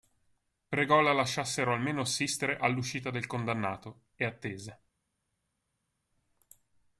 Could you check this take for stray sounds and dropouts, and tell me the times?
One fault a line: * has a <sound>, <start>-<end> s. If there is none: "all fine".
all fine